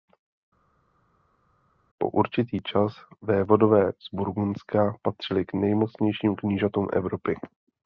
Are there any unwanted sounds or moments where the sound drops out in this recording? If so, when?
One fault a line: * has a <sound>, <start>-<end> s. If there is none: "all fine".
all fine